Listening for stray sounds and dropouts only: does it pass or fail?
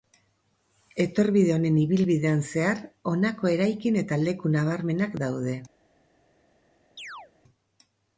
fail